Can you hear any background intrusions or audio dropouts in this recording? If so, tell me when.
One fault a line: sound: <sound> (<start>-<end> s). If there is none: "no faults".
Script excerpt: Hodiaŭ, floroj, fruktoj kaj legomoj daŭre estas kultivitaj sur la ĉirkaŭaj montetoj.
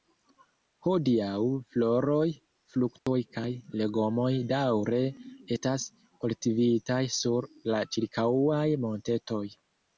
sound: dropout (3.0-3.1 s)